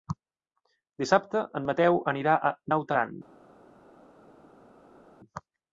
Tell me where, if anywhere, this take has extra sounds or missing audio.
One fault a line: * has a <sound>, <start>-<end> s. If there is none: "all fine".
all fine